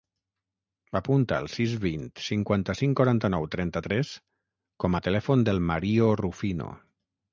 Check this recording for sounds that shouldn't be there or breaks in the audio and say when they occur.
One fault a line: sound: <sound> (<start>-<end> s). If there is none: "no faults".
no faults